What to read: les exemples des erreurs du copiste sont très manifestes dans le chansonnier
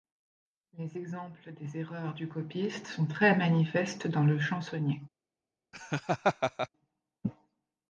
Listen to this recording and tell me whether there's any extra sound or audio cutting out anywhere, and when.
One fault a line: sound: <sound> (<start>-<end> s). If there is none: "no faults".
sound: laugh (5.7-6.7 s)